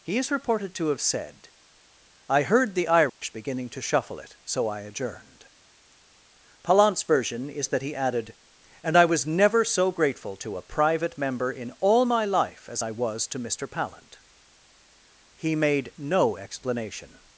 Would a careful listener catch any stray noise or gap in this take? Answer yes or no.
yes